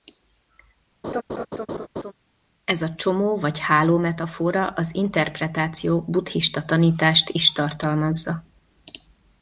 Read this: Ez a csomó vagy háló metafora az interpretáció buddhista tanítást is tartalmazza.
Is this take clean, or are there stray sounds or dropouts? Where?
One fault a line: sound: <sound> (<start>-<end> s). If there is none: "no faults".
sound: laugh (1.0-2.1 s)